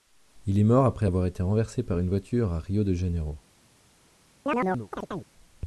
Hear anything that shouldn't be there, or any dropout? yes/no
yes